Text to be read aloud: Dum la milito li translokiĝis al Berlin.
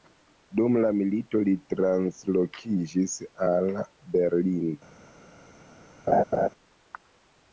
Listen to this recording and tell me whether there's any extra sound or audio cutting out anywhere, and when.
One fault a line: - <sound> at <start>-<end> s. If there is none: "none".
- laugh at 6.1-6.5 s